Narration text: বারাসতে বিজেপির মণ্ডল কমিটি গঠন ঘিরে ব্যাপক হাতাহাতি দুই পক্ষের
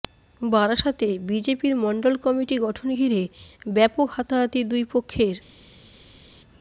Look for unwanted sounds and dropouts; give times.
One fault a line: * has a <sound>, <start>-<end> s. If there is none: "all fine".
all fine